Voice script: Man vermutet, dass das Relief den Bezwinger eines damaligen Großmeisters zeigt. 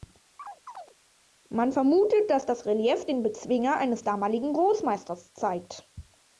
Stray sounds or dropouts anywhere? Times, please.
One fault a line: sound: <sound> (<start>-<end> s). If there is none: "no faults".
sound: chirp (0.4-0.9 s)